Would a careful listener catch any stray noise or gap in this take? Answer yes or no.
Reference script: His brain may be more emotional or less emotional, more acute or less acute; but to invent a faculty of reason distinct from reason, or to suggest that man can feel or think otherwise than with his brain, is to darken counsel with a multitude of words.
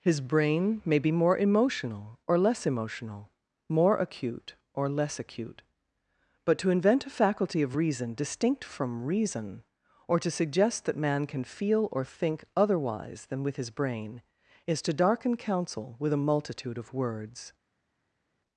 no